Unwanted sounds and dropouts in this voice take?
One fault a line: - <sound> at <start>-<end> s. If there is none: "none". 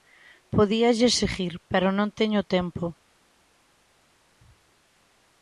none